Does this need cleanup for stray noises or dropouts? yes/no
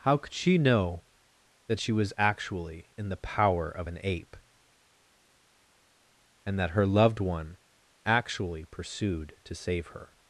no